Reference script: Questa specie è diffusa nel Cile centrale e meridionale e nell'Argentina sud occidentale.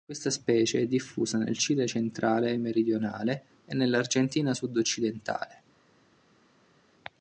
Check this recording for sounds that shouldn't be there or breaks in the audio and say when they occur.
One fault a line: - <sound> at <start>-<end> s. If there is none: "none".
none